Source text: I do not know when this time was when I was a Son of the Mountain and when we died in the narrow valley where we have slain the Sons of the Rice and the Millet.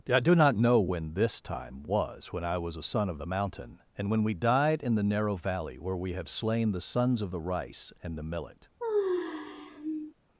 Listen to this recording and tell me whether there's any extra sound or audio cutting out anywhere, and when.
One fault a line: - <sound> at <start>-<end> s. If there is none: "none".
- sigh at 8.8-10.1 s